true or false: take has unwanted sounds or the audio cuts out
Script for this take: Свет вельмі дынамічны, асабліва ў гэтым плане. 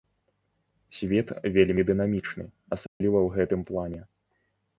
true